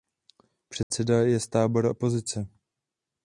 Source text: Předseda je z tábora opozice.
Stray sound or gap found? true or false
true